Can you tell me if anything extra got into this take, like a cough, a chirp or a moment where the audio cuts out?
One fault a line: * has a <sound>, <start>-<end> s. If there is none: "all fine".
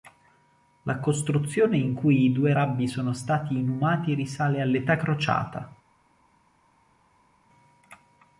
all fine